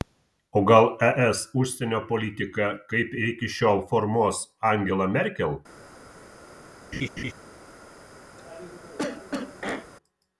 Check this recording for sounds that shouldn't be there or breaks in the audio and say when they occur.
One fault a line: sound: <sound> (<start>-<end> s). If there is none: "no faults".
sound: laugh (6.9-7.3 s)
sound: cough (8.4-9.9 s)